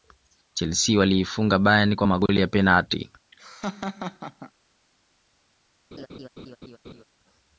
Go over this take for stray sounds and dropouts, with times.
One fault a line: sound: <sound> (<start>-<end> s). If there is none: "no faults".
sound: laugh (3.3-4.5 s)
sound: laugh (5.9-7.0 s)